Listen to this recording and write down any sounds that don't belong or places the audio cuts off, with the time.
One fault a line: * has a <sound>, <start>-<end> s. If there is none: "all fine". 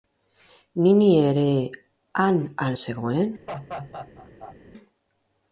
* has a laugh, 3.5-4.6 s